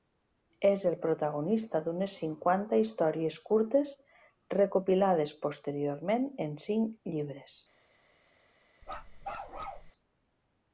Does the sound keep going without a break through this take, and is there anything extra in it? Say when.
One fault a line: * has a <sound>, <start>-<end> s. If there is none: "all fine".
* has a bark, 8.8-9.9 s